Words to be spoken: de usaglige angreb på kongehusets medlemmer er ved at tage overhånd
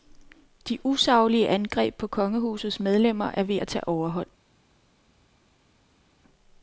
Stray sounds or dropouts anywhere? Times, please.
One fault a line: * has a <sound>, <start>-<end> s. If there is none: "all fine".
all fine